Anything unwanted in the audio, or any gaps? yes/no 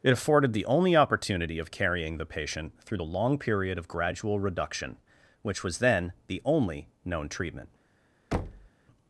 yes